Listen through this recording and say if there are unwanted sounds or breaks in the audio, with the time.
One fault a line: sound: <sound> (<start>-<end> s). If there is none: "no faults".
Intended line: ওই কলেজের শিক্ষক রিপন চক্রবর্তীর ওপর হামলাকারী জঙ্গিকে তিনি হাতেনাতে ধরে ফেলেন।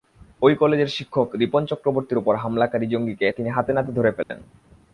sound: dropout (4.2-4.3 s)